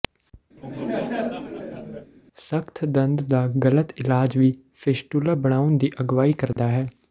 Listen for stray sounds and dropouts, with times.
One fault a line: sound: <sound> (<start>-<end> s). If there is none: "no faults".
sound: laugh (0.6-2.1 s)
sound: dropout (6.5-6.6 s)